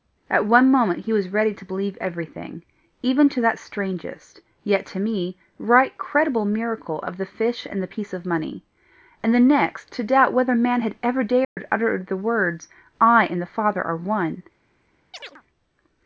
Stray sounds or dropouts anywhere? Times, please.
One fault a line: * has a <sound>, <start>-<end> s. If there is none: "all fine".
* has a dropout, 11.4-11.6 s
* has a chirp, 15.1-15.4 s